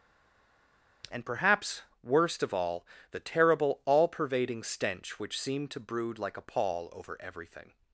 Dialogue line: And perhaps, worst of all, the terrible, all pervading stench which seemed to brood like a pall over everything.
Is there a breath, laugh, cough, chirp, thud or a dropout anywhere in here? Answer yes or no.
no